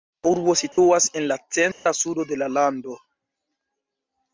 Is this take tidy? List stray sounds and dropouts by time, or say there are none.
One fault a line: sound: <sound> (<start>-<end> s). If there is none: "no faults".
sound: dropout (0.7-0.8 s)
sound: dropout (1.7-1.9 s)